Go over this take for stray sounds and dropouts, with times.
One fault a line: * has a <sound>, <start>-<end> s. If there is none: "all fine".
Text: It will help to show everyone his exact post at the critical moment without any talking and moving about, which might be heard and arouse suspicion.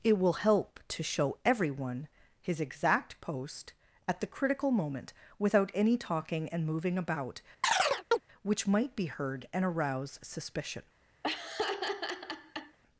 * has a chirp, 7.6-8.2 s
* has a laugh, 11.2-12.8 s